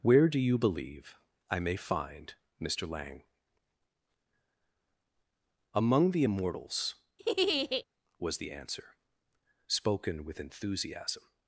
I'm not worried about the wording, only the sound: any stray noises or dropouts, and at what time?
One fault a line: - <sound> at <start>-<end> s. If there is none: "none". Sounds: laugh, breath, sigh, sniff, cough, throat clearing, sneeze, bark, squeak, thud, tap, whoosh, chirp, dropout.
- laugh at 7.2-7.8 s